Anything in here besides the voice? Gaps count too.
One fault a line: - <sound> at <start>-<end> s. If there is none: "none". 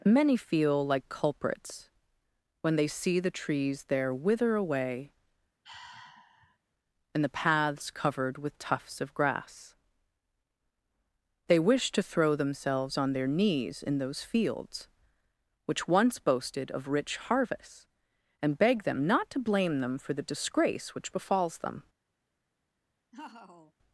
- sigh at 5.6-6.6 s
- laugh at 23.1-23.7 s